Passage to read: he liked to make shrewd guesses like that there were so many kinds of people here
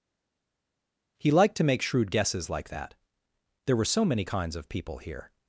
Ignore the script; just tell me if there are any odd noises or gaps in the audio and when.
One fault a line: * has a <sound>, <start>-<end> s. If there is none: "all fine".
all fine